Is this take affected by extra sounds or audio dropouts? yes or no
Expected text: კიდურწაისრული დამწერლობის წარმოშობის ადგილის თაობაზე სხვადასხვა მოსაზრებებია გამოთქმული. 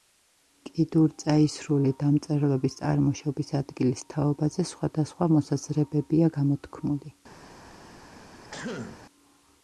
yes